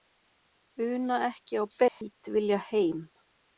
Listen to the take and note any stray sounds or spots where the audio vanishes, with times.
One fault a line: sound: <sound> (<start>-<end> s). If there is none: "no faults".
sound: dropout (1.9-2.0 s)